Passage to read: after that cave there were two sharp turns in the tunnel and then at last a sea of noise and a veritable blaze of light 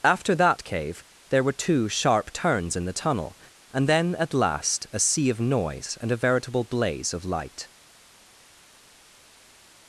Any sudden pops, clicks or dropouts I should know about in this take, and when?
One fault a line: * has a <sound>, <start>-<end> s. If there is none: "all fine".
all fine